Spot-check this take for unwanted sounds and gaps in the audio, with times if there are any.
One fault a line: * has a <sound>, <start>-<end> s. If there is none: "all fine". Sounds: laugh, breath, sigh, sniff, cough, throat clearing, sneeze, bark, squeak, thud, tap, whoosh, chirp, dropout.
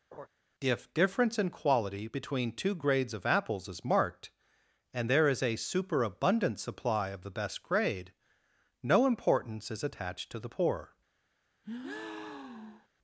* has a laugh, 0.1-0.3 s
* has a breath, 11.6-12.9 s